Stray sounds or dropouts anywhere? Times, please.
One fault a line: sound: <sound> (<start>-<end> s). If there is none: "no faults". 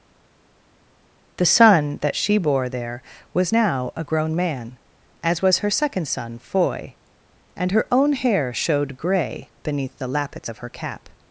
no faults